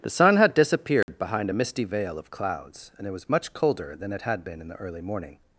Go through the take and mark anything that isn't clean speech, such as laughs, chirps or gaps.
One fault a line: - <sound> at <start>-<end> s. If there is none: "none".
- dropout at 1.0-1.1 s